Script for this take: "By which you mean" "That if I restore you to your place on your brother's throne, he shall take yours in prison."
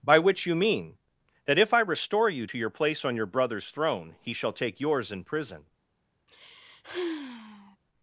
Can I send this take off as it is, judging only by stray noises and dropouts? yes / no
no